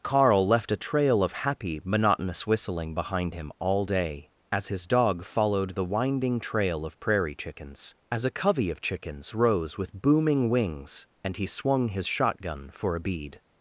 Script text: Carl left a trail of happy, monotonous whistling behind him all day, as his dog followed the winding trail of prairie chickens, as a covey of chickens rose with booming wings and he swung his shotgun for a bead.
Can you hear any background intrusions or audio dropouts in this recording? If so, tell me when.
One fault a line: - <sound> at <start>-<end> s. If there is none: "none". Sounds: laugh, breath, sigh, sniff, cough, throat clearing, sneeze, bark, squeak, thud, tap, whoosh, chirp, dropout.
none